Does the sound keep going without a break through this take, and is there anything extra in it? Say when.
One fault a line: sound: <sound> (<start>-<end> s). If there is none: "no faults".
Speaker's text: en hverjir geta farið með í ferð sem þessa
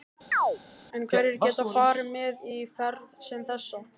sound: chirp (0.3-0.6 s)